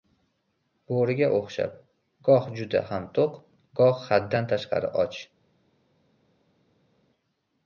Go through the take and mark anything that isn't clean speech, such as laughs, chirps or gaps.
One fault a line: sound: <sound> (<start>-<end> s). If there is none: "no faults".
no faults